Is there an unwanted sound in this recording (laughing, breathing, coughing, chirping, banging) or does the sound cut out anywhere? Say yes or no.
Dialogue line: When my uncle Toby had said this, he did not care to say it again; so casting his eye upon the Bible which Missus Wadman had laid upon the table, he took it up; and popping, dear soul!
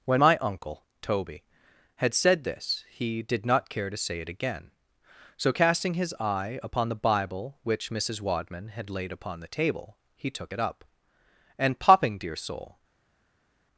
no